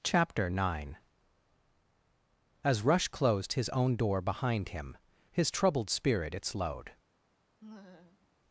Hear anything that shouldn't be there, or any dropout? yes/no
yes